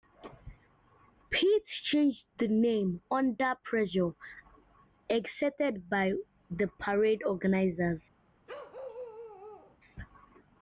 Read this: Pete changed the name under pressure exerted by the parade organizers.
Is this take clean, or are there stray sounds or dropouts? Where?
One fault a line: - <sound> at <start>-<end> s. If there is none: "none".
- bark at 8.5-9.8 s